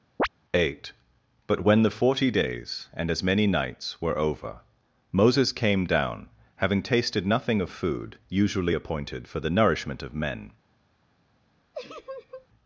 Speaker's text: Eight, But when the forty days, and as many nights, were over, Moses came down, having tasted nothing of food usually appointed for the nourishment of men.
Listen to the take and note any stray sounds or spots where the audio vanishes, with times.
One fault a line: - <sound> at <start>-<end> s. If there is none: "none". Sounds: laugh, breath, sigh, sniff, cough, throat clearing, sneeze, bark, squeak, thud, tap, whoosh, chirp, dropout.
- chirp at 0.2-0.3 s
- laugh at 11.7-12.5 s